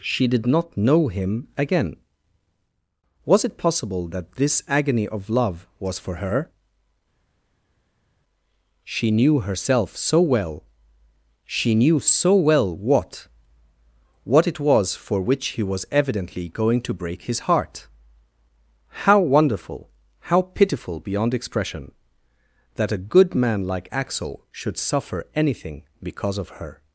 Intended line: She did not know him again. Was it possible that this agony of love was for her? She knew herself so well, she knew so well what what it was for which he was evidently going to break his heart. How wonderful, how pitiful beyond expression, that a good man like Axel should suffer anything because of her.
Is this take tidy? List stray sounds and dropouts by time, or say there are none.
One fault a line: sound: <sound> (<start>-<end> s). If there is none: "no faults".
no faults